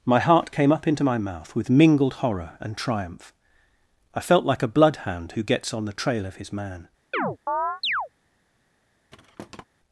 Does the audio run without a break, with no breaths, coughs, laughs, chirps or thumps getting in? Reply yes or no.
no